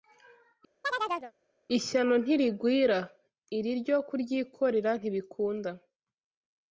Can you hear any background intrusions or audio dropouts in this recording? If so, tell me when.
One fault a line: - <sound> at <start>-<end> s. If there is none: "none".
- chirp at 0.8-1.3 s